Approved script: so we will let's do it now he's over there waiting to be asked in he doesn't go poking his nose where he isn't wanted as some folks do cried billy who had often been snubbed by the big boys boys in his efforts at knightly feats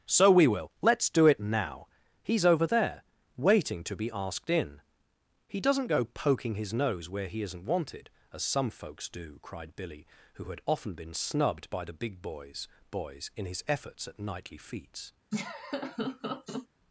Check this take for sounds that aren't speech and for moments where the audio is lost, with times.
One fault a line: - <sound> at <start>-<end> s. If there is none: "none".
- laugh at 15.3-16.7 s